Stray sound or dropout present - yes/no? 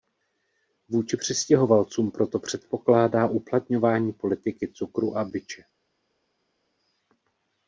no